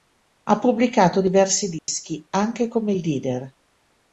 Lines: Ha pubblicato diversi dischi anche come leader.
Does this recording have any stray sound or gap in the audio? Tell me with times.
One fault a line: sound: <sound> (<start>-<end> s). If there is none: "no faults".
sound: dropout (1.8-1.9 s)